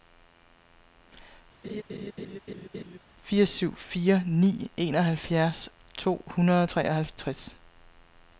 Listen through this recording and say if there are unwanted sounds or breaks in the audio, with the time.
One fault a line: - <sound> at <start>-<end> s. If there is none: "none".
- laugh at 1.6-3.0 s